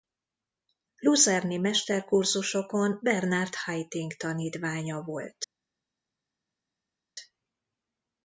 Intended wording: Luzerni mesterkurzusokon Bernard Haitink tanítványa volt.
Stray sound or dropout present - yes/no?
no